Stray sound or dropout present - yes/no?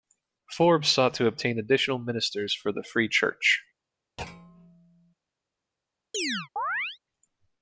yes